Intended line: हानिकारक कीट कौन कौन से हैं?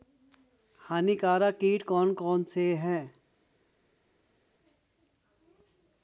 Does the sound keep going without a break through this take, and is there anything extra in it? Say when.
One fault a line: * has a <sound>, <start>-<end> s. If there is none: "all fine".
all fine